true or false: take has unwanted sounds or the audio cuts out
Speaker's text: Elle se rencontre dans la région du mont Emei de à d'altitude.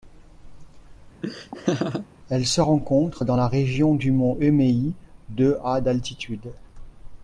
true